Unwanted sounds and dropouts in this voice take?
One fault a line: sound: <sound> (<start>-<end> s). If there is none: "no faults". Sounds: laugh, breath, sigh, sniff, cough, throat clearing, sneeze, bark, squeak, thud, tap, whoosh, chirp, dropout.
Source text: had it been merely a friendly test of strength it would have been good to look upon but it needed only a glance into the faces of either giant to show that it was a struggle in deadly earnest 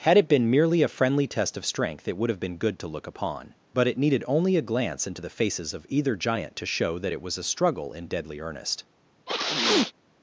sound: sneeze (9.3-9.9 s)